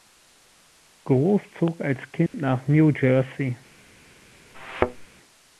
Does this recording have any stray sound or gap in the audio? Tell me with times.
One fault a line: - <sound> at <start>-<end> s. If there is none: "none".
- dropout at 2.3-2.3 s
- thud at 4.5-5.1 s